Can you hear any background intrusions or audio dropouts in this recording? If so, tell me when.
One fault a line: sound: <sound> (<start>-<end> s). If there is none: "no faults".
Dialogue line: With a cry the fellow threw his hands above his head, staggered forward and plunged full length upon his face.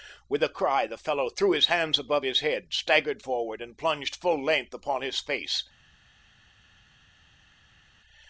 no faults